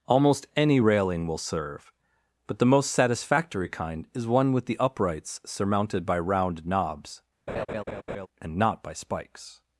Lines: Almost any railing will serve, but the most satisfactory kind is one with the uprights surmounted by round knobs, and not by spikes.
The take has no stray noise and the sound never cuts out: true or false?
false